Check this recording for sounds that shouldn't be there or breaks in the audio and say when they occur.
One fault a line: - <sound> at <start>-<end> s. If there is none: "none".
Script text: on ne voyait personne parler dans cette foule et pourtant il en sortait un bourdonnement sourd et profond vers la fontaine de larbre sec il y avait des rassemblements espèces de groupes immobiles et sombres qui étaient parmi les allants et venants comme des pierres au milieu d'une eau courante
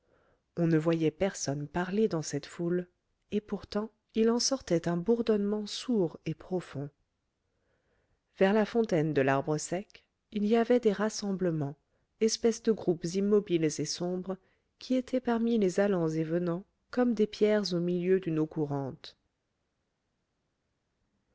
none